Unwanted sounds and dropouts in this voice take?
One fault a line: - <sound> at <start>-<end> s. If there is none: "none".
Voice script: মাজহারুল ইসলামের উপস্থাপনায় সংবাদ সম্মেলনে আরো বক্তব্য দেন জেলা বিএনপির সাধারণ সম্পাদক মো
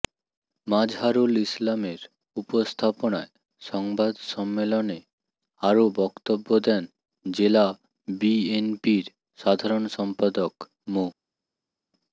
none